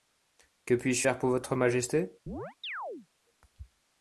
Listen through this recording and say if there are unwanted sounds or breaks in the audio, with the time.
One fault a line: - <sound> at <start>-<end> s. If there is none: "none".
- chirp at 2.3-3.1 s